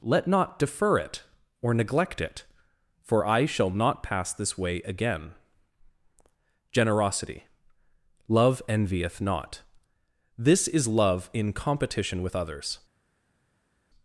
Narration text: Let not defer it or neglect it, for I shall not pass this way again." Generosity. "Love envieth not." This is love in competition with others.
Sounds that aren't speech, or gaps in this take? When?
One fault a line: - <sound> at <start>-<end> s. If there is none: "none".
none